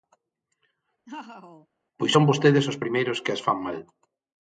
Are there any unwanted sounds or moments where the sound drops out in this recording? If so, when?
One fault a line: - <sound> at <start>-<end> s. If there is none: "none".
- laugh at 1.1-1.7 s